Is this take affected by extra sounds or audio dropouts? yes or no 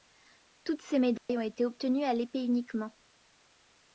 yes